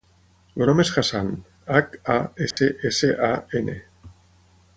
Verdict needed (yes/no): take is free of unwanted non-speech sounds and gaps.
no